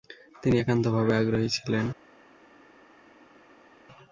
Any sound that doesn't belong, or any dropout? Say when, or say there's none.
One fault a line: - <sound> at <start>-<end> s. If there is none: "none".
none